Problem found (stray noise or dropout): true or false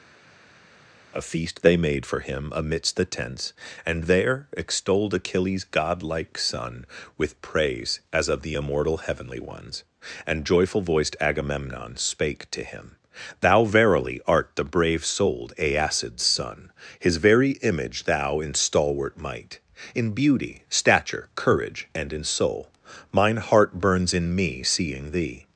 false